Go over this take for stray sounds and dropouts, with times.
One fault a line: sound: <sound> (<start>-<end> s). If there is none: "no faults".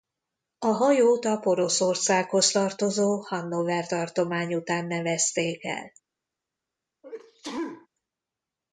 sound: sneeze (7.0-7.9 s)